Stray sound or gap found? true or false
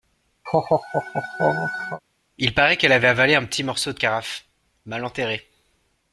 true